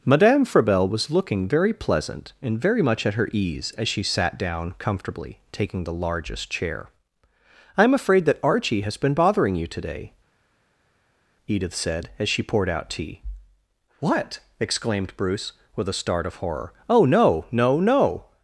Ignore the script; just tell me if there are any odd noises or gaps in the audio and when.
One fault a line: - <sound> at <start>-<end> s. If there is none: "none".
none